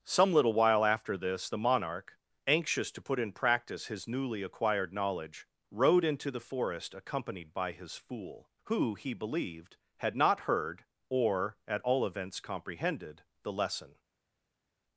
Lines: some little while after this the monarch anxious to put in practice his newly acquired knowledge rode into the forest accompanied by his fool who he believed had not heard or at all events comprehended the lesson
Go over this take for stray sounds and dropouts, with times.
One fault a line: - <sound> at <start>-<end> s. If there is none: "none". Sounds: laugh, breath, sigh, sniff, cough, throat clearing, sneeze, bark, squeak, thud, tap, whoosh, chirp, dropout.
none